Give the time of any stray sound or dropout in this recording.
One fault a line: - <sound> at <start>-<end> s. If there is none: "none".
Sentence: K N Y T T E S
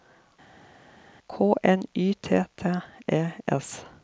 none